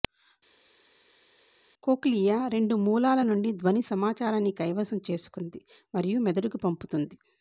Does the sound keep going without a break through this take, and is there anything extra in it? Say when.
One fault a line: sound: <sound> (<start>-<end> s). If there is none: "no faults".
no faults